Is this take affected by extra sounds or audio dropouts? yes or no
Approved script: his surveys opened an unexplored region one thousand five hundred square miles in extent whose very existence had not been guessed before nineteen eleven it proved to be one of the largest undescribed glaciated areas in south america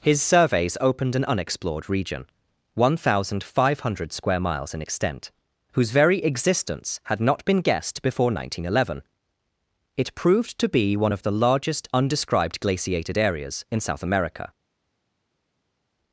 no